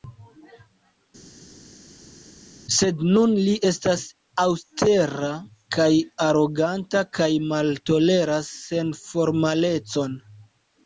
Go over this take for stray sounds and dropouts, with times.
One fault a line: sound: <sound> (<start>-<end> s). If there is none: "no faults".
no faults